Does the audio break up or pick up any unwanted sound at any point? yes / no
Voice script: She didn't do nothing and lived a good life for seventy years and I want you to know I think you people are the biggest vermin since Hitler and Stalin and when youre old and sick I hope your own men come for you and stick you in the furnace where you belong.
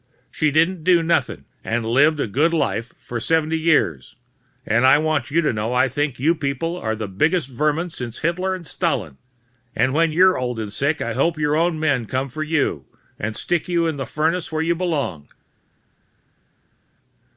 no